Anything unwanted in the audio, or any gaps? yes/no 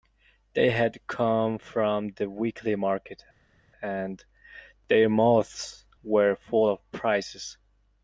no